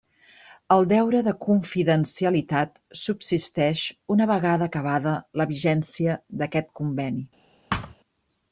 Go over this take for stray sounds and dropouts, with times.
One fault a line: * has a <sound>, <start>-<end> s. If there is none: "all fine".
* has a thud, 7.7-8.0 s